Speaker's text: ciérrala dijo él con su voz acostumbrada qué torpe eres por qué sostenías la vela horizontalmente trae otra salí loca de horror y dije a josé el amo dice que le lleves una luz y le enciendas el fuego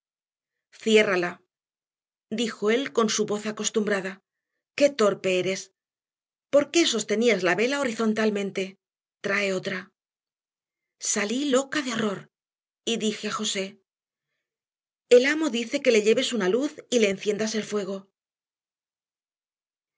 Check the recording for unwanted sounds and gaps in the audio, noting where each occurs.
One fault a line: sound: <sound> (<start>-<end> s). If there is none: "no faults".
no faults